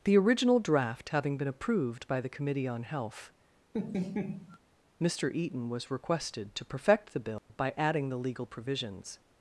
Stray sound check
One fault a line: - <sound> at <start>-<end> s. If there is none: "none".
- laugh at 3.7-4.6 s
- dropout at 7.4-7.5 s